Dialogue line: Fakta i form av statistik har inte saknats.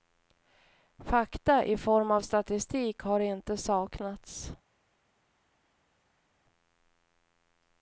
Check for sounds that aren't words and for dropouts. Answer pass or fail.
pass